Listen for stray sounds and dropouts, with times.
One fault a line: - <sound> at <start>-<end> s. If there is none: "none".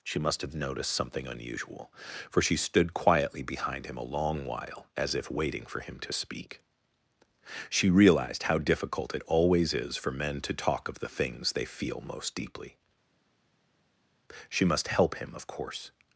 none